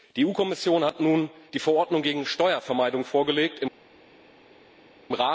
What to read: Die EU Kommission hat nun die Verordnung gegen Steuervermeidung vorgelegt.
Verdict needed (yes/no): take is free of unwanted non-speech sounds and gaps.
yes